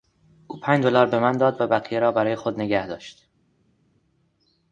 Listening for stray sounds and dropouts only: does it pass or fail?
pass